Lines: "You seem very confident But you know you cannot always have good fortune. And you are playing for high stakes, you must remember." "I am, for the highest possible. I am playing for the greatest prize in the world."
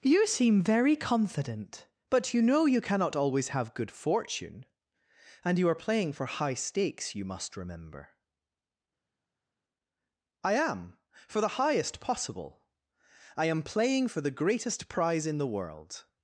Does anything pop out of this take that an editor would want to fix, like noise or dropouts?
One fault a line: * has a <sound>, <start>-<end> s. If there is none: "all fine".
all fine